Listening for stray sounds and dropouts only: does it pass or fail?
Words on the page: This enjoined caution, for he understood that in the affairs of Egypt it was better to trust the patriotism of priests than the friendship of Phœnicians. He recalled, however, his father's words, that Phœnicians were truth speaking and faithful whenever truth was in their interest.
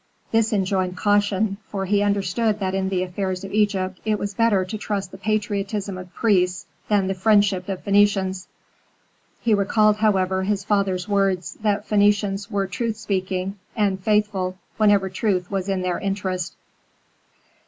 pass